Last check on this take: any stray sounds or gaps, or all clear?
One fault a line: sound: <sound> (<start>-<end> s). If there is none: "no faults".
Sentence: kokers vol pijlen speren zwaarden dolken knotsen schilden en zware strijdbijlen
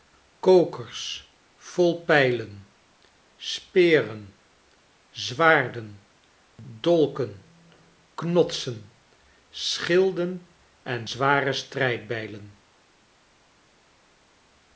no faults